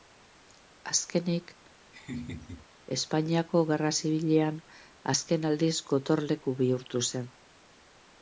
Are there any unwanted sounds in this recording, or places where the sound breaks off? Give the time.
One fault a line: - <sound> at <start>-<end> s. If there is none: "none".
- laugh at 1.9-2.7 s